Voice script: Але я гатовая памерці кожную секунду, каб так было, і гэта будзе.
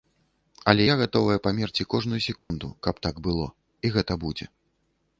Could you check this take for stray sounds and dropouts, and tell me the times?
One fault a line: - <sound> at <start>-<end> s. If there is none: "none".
- dropout at 2.4-2.5 s